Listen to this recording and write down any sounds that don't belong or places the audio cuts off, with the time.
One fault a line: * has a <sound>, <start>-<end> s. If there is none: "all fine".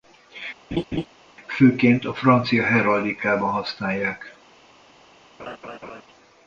* has a laugh, 0.7-1.1 s
* has a laugh, 5.4-6.0 s